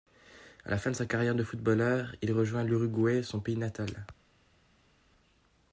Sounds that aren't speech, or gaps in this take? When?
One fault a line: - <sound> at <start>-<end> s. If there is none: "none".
none